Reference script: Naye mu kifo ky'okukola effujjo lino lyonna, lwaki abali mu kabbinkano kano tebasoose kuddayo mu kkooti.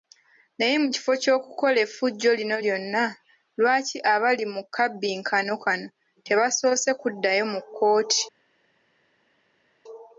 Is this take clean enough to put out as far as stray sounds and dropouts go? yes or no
yes